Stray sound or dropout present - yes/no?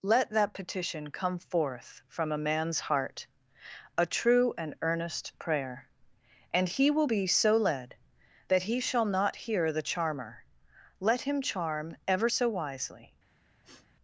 yes